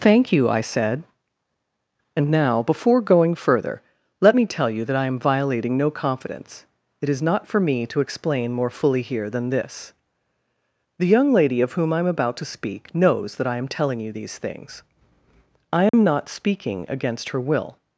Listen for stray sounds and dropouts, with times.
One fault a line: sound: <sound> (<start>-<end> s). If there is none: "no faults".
sound: dropout (15.9-15.9 s)